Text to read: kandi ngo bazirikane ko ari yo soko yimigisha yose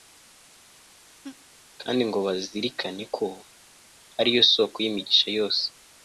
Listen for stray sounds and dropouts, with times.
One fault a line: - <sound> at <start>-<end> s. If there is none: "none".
- laugh at 1.2-1.5 s